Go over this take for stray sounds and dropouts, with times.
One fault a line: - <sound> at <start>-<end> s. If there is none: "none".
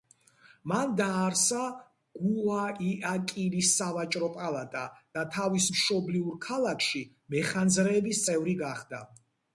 none